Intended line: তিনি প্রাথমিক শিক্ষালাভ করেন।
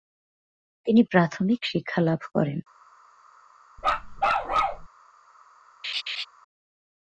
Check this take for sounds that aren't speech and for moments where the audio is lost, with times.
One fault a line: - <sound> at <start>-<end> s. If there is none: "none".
- bark at 3.8-4.9 s
- laugh at 5.8-6.3 s